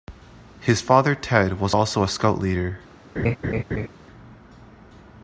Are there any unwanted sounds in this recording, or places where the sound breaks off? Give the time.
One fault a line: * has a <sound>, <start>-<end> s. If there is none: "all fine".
* has a laugh, 3.2-3.9 s